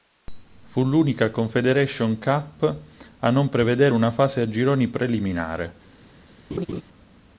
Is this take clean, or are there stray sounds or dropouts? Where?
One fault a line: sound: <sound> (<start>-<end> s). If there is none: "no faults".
sound: laugh (6.5-6.8 s)